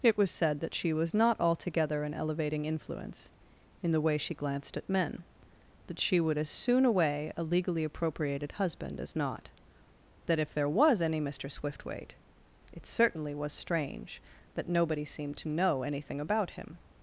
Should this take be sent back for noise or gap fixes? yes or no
no